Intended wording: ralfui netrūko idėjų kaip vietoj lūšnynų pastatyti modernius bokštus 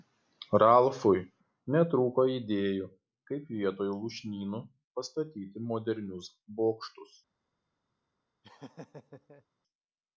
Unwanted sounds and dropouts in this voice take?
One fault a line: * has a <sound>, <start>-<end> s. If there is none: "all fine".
* has a laugh, 8.4-9.4 s